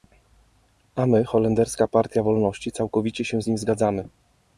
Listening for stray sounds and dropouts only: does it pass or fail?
pass